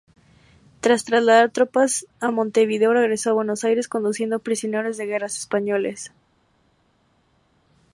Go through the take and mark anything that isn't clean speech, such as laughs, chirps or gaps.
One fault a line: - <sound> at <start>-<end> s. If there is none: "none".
none